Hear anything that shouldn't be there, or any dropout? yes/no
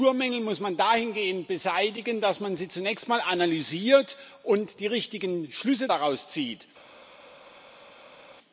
no